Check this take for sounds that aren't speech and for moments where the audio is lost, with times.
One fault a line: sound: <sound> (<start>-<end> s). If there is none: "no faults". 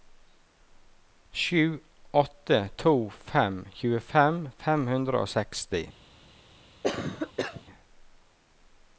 sound: cough (6.8-7.6 s)